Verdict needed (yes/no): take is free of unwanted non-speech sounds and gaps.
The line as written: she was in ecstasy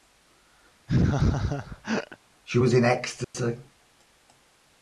no